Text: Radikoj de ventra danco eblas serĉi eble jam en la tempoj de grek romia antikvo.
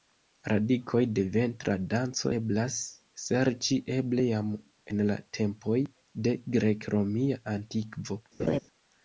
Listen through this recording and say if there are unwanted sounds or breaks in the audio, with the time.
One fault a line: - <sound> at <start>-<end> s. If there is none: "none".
- laugh at 8.4-8.6 s